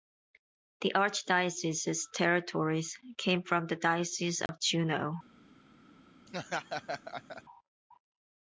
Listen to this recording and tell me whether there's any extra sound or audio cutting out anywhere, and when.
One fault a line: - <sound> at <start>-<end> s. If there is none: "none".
- dropout at 4.5-4.5 s
- laugh at 6.3-7.4 s